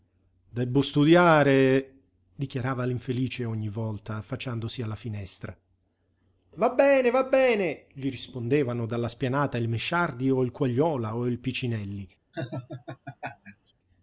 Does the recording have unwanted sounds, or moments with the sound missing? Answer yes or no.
yes